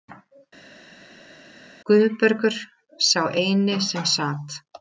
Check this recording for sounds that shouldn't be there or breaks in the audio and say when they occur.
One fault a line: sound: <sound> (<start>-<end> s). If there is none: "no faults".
no faults